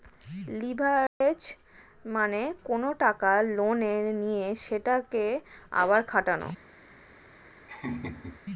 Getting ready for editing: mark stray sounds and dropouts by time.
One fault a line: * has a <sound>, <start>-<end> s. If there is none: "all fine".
* has a dropout, 1.1-1.2 s
* has a laugh, 7.7-8.4 s